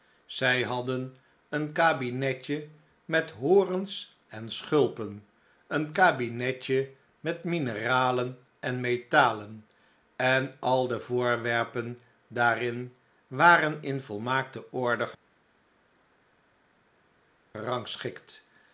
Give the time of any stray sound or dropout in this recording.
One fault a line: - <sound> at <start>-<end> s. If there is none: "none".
none